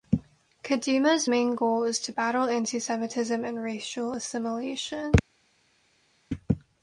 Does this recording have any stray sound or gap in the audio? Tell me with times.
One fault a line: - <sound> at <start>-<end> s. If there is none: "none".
none